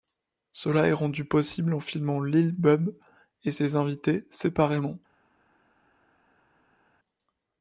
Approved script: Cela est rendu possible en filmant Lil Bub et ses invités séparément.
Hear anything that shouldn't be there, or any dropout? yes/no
no